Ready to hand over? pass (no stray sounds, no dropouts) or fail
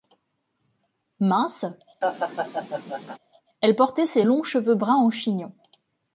fail